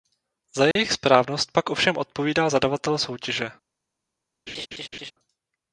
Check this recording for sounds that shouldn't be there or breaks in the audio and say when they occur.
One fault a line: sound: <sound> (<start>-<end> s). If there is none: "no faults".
sound: dropout (0.7-0.8 s)
sound: laugh (4.5-5.1 s)